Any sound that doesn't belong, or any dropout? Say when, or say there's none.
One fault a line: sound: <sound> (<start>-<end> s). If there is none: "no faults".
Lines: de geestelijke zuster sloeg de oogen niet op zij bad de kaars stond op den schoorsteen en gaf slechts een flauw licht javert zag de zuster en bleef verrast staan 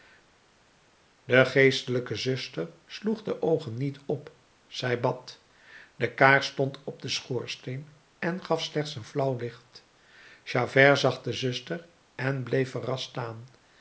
no faults